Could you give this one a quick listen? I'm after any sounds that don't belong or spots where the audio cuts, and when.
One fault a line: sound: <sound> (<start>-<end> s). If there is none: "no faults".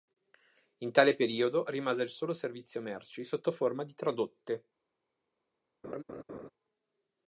sound: laugh (5.8-6.5 s)